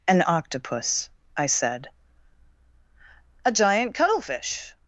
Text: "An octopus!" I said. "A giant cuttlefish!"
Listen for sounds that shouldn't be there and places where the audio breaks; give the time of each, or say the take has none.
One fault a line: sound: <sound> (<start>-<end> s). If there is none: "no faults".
no faults